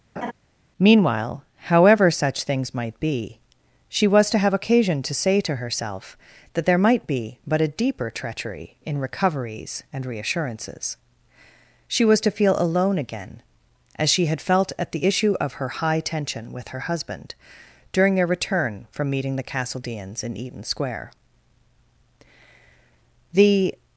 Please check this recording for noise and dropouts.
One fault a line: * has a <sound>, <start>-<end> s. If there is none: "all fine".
* has a laugh, 0.2-0.3 s